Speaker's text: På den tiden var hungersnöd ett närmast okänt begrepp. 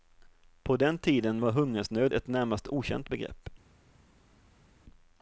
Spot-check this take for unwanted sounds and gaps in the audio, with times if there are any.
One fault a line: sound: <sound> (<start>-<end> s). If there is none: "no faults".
no faults